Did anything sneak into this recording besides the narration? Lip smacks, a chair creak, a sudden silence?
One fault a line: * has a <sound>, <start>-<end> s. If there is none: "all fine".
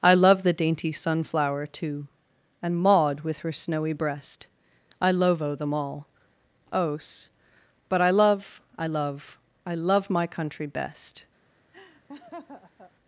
* has a laugh, 11.7-12.9 s